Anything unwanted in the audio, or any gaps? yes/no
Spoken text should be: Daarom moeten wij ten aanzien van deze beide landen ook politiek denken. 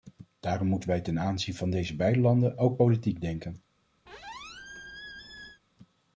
yes